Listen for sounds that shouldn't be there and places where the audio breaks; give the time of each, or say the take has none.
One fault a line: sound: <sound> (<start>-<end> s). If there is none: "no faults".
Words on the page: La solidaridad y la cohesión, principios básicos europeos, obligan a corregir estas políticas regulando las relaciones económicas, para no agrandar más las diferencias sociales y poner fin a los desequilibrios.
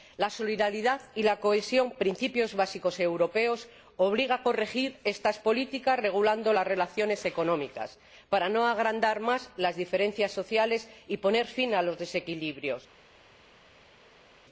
no faults